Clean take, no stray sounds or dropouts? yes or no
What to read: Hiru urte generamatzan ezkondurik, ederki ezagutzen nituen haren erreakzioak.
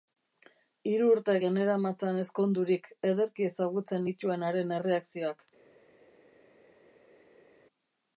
yes